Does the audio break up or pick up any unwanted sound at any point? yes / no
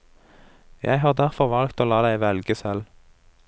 no